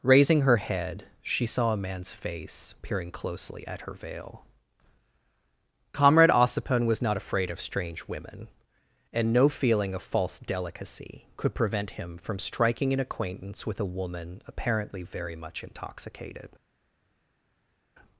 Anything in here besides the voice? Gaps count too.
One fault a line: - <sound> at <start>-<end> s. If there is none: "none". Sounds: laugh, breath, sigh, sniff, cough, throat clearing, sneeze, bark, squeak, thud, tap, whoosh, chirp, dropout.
none